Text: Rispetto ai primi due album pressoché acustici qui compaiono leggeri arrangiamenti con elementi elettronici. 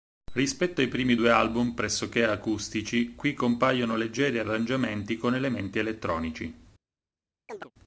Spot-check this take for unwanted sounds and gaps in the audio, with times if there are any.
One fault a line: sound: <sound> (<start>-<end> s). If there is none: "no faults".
sound: chirp (7.5-7.7 s)